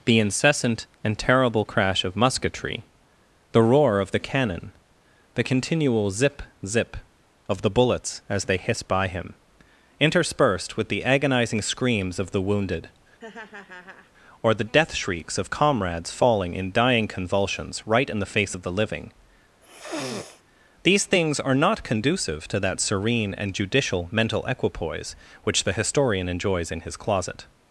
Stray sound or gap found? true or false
true